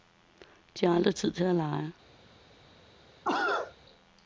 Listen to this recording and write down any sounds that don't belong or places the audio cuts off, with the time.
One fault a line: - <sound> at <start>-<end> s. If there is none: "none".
- cough at 3.2-3.7 s